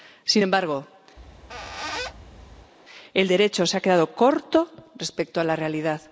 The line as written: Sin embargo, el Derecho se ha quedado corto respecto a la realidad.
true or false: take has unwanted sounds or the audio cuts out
true